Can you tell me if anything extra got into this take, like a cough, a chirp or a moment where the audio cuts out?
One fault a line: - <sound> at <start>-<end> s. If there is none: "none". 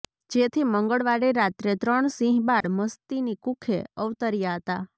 - dropout at 2.6-2.6 s